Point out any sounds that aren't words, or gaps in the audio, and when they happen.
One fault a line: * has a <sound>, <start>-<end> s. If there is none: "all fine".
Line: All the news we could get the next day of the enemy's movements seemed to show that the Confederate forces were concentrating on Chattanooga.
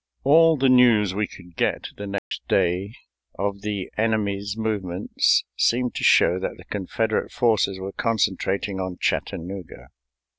* has a dropout, 2.2-2.3 s